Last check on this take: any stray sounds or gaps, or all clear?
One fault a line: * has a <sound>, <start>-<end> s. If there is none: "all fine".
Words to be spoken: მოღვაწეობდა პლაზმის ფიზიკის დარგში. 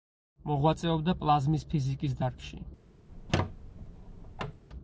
* has a squeak, 3.1-4.6 s